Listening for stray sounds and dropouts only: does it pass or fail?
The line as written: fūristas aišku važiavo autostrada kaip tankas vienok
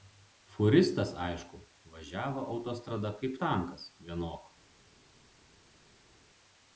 pass